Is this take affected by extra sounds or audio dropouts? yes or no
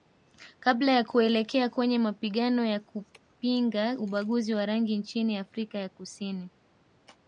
no